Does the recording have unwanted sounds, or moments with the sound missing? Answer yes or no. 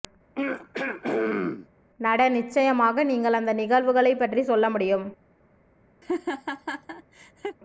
yes